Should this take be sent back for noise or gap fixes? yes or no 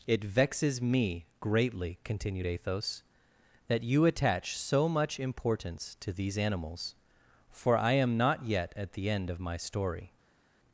no